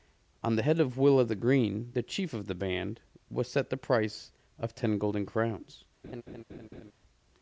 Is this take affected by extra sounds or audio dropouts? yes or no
yes